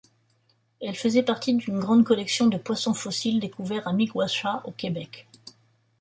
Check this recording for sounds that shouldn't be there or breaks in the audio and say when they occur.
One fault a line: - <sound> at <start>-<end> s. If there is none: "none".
none